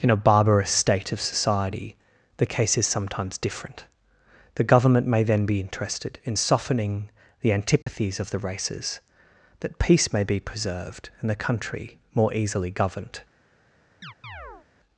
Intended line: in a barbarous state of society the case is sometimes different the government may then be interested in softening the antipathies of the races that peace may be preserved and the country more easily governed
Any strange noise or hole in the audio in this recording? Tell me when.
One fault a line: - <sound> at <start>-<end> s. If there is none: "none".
- dropout at 7.8-7.9 s
- chirp at 14.0-14.7 s